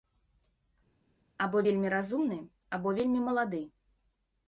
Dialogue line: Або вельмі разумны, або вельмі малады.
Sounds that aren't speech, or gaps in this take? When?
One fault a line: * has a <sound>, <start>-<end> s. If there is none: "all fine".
all fine